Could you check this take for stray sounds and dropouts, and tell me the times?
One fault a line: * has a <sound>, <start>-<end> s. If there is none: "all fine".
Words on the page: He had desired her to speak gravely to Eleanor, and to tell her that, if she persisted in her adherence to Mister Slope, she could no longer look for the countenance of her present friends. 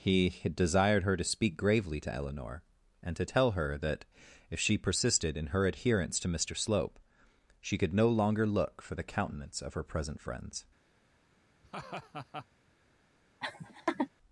* has a laugh, 11.6-12.5 s
* has a laugh, 13.4-14.1 s